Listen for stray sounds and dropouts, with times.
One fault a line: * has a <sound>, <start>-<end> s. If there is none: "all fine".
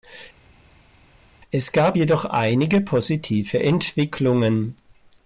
all fine